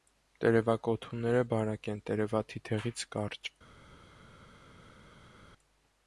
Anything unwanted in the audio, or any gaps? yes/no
no